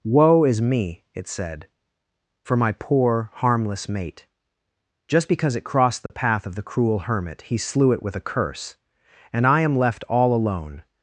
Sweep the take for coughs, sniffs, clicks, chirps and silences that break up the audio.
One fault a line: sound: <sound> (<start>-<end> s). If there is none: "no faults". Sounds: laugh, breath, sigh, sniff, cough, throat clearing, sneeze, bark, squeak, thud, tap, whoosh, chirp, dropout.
sound: dropout (6.1-6.1 s)